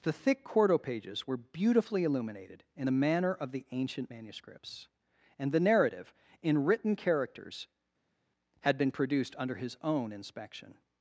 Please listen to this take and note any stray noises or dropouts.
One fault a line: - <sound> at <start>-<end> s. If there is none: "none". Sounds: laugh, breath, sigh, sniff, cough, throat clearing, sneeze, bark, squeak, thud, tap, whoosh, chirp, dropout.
none